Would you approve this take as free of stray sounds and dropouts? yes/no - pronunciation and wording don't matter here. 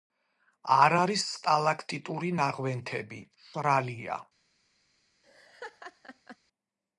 no